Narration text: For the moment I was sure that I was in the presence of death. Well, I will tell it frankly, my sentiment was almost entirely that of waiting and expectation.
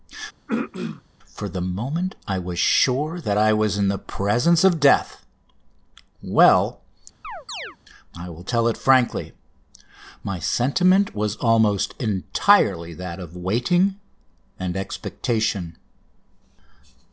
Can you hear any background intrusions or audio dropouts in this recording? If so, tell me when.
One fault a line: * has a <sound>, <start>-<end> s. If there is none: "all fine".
* has a throat clearing, 0.5-1.0 s
* has a chirp, 7.2-7.8 s